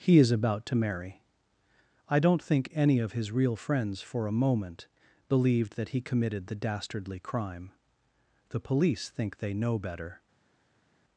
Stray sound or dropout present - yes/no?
no